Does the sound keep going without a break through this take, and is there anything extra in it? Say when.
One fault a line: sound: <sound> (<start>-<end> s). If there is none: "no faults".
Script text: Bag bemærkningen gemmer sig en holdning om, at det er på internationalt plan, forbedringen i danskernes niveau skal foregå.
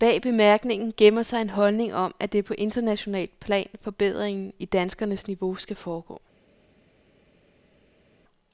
no faults